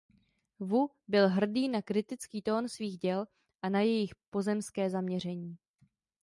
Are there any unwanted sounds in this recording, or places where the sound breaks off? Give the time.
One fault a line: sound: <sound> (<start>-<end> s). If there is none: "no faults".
no faults